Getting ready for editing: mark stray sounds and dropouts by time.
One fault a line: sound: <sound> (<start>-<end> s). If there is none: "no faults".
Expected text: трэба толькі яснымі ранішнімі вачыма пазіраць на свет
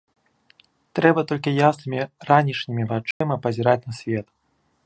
sound: dropout (3.1-3.2 s)